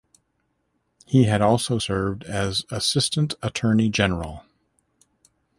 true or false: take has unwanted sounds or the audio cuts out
false